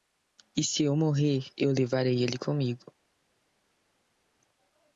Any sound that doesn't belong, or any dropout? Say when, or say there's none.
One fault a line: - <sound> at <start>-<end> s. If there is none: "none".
none